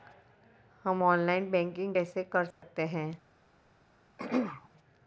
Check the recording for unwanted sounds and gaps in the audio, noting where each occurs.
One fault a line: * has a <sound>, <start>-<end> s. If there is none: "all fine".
* has a dropout, 2.5-2.6 s
* has a throat clearing, 4.2-4.7 s